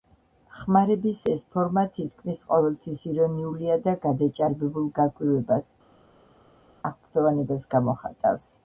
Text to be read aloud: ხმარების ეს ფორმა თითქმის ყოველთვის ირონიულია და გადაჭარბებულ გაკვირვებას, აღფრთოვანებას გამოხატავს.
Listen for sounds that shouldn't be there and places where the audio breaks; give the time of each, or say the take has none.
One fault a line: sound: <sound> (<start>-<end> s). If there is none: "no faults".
no faults